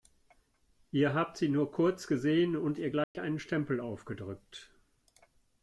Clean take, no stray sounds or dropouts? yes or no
no